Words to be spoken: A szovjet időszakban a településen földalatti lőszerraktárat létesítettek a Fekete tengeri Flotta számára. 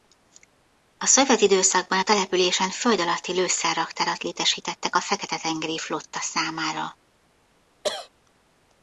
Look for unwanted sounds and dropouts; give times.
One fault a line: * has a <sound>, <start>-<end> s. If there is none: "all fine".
* has a cough, 7.8-8.1 s